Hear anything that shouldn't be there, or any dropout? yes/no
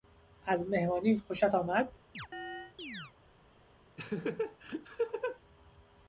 yes